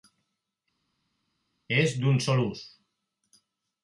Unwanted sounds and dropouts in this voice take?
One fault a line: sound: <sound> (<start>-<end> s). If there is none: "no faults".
no faults